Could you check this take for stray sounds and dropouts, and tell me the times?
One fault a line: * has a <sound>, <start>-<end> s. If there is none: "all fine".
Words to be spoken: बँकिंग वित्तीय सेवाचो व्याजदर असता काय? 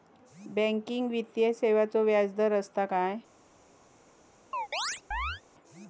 * has a chirp, 4.5-5.4 s